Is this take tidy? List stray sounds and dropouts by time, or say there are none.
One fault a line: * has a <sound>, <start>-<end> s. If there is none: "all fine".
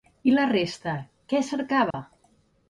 * has a dropout, 1.9-1.9 s